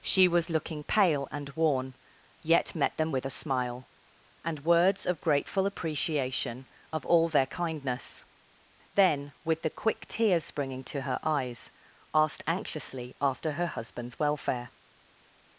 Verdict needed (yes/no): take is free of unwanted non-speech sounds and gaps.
yes